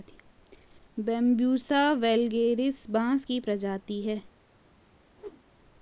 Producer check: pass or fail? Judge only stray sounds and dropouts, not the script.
fail